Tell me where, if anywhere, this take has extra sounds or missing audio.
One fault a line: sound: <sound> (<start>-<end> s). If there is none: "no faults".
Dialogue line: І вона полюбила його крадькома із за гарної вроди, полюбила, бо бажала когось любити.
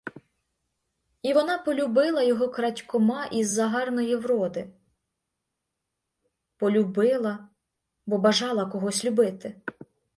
no faults